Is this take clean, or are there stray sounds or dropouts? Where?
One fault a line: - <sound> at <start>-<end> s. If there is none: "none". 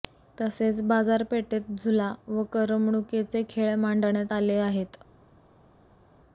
none